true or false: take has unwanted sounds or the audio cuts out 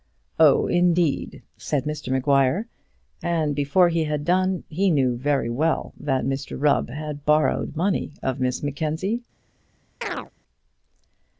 true